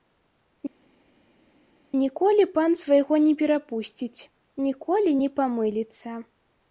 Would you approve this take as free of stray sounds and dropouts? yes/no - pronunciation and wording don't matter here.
yes